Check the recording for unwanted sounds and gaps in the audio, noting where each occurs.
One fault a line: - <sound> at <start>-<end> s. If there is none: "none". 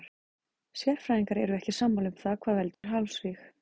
- dropout at 2.7-2.8 s